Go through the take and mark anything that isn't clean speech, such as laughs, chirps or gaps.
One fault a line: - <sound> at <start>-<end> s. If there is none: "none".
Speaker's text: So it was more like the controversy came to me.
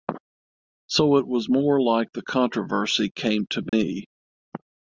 - dropout at 3.7-3.7 s